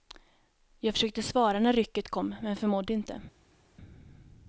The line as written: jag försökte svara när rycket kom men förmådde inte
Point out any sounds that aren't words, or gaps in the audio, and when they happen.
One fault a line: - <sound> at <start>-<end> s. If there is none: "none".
none